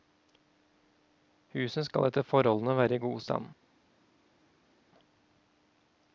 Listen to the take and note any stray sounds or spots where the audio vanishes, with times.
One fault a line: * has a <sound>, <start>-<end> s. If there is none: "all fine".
all fine